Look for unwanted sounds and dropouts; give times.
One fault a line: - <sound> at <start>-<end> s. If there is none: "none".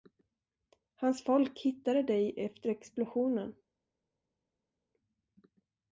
none